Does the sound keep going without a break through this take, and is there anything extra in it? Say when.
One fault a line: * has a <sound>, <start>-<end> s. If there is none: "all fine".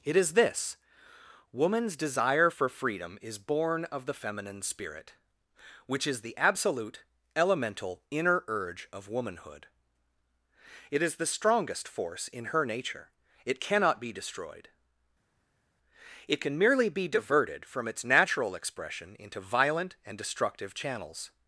all fine